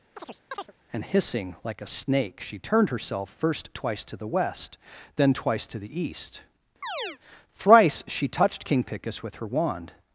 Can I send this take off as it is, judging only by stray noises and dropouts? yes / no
no